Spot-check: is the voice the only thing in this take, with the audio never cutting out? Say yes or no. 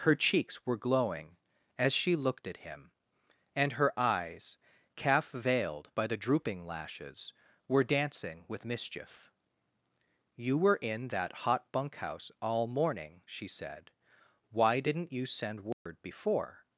no